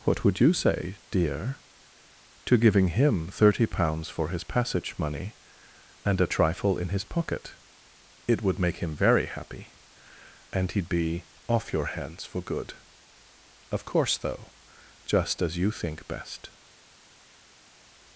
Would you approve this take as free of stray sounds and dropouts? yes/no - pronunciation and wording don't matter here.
yes